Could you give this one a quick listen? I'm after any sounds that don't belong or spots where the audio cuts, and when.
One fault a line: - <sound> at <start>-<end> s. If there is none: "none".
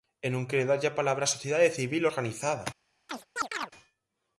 - chirp at 3.1-3.7 s